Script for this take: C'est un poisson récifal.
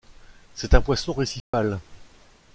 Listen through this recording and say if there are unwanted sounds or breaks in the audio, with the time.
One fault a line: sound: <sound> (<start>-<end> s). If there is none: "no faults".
sound: dropout (1.4-1.5 s)